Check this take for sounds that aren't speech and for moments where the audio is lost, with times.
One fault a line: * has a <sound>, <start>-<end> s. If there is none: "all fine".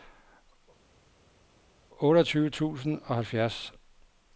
all fine